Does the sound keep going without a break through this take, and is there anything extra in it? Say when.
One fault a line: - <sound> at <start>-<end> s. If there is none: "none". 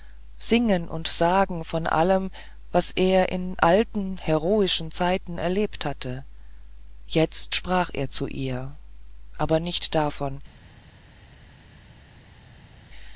none